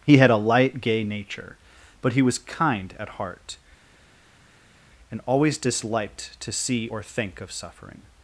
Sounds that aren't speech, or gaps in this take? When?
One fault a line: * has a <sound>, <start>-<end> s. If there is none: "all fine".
all fine